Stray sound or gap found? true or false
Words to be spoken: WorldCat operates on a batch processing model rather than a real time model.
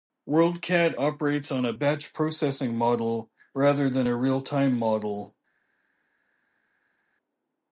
false